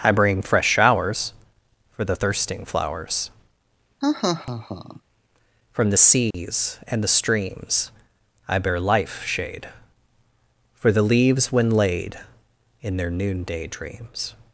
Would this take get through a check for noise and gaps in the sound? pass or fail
fail